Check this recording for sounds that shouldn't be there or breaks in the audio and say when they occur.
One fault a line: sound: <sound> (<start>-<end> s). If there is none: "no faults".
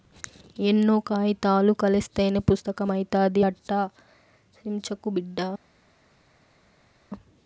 no faults